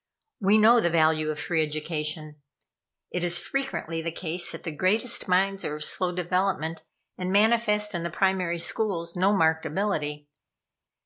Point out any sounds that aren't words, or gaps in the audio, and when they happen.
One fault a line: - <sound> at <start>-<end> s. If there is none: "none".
none